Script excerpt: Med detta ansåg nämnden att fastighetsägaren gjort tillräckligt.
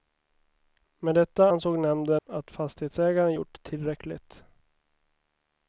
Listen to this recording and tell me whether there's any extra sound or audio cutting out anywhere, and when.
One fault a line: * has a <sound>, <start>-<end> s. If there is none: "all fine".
* has a dropout, 2.2-2.3 s